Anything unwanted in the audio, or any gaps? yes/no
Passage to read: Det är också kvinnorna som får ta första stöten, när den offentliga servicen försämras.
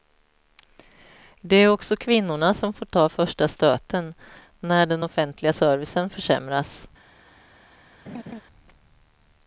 yes